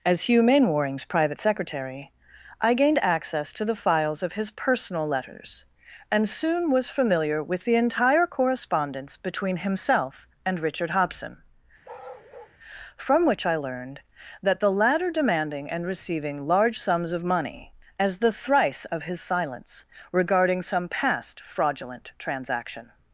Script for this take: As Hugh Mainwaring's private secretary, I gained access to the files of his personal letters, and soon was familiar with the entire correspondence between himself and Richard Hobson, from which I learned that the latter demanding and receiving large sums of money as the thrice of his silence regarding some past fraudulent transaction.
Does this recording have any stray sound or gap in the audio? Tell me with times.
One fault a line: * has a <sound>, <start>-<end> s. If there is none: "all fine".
* has a bark, 11.8-12.6 s